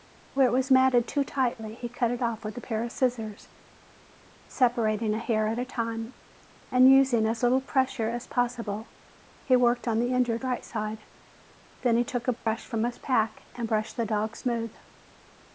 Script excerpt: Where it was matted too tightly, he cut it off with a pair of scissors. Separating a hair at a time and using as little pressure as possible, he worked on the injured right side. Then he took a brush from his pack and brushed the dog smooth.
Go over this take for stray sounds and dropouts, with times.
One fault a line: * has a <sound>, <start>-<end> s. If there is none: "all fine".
* has a dropout, 12.4-12.5 s